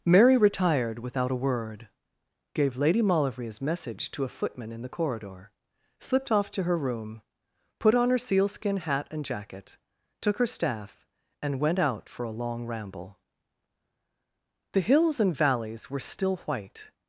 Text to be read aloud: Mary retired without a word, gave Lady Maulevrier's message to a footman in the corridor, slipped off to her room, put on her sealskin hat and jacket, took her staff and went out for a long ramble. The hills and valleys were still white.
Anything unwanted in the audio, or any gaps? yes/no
no